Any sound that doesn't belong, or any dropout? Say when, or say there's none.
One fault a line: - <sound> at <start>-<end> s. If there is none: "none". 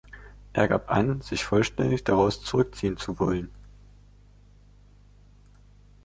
none